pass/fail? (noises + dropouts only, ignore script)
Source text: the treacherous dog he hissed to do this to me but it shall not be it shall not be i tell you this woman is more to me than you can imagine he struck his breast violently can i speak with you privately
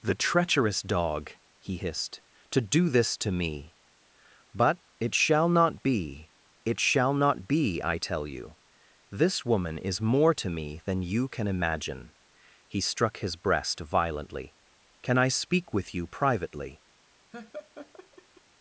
fail